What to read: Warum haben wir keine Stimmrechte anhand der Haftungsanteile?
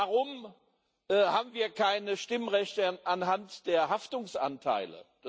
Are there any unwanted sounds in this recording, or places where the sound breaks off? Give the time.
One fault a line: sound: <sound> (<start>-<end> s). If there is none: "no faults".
no faults